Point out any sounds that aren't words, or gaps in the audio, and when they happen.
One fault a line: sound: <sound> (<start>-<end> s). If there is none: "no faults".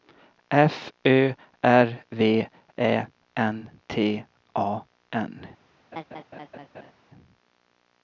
sound: laugh (5.9-6.9 s)